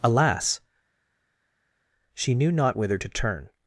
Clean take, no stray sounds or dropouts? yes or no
yes